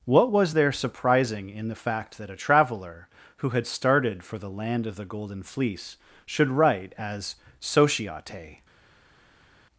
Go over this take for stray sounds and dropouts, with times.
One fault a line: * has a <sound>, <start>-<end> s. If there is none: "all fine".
all fine